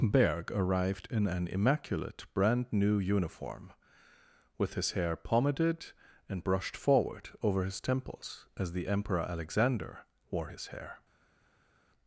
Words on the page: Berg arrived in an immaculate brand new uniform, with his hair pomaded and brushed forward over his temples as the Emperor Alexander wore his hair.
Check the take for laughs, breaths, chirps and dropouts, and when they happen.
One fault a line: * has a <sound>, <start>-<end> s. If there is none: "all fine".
all fine